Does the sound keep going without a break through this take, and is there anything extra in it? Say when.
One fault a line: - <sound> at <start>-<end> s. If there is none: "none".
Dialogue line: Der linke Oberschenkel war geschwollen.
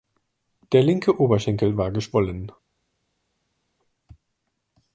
none